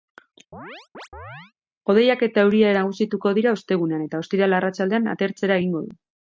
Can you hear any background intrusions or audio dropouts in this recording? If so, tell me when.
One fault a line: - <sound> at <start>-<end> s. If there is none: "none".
- chirp at 0.5-1.5 s